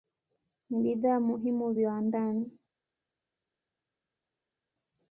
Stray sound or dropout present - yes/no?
no